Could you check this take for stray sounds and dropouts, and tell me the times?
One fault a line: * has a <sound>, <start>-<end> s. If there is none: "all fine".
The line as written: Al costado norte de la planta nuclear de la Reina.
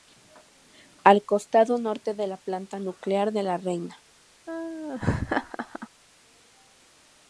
* has a laugh, 4.5-5.9 s